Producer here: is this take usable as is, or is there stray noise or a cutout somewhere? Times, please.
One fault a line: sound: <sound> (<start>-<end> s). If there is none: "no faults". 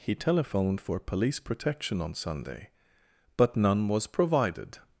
no faults